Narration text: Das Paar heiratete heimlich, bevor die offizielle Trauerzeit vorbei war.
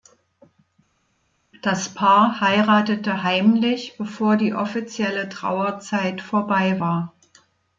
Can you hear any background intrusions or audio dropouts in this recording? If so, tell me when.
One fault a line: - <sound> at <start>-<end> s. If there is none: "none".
none